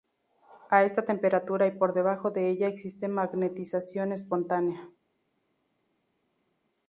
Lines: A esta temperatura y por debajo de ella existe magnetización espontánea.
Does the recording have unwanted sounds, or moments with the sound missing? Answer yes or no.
no